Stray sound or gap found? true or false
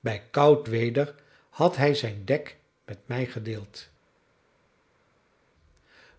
false